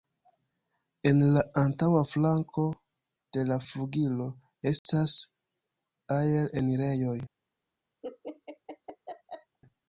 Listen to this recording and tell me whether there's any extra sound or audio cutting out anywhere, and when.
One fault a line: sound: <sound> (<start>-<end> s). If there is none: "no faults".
sound: dropout (4.8-4.9 s)
sound: laugh (8.0-9.6 s)